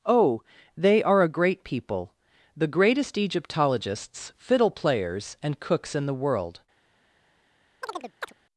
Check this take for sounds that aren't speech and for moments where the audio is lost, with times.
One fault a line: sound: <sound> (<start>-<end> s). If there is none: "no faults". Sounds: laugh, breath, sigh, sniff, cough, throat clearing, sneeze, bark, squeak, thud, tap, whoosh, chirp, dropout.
sound: chirp (7.8-8.3 s)